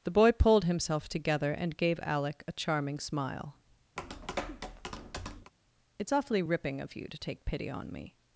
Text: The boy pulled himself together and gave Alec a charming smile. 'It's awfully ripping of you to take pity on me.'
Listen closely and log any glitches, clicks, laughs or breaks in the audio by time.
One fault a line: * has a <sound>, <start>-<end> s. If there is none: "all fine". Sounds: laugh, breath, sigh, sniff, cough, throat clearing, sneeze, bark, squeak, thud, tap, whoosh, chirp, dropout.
* has a tap, 4.0-5.5 s